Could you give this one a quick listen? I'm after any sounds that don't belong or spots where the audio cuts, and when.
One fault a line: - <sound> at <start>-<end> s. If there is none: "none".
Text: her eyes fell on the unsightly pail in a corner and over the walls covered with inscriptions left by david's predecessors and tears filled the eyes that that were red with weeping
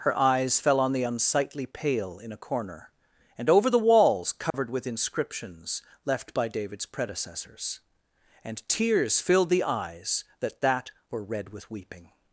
- dropout at 4.5-4.5 s